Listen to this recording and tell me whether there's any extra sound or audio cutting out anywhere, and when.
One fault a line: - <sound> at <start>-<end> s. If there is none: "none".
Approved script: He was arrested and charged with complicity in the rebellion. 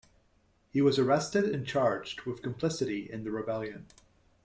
none